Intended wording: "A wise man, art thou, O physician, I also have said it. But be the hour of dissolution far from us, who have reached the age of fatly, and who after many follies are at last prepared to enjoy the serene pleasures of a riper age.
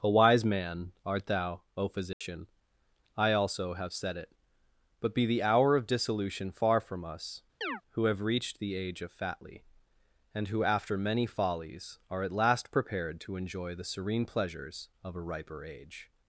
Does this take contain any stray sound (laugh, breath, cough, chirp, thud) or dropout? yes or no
yes